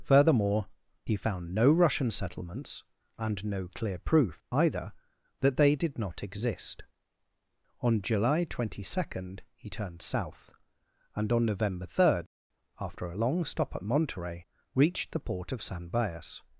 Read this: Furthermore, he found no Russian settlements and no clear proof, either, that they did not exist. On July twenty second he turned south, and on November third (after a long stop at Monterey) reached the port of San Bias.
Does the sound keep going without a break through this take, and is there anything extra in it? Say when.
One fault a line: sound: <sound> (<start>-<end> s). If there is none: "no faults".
no faults